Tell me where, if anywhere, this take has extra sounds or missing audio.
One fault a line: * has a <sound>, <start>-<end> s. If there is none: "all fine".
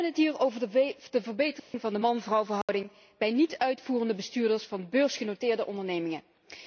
* has a dropout, 1.6-1.7 s
* has a dropout, 2.6-2.7 s